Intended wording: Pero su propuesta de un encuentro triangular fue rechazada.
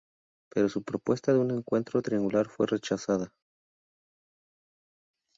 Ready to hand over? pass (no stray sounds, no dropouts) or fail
pass